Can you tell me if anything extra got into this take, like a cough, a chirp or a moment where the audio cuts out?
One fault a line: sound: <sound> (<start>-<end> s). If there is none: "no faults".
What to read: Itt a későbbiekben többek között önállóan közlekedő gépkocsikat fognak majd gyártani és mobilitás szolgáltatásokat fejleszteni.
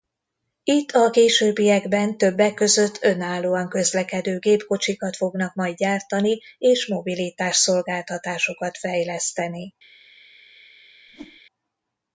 sound: whoosh (11.1-11.4 s)